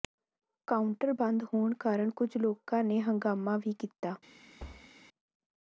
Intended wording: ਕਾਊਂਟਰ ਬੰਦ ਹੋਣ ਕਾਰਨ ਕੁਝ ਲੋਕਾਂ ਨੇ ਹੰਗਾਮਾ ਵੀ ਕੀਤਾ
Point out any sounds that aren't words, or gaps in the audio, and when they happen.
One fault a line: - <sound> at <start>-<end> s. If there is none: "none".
- thud at 4.6-4.9 s